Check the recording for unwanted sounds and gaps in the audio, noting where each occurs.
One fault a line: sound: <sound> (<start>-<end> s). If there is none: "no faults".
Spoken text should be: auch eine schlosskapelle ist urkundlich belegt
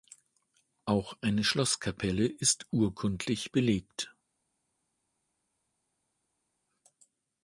no faults